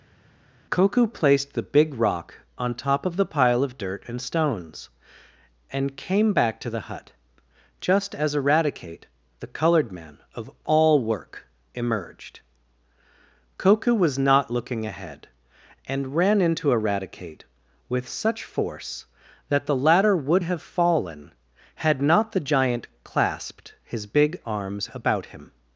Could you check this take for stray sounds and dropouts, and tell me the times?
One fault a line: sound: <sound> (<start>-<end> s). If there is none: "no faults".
no faults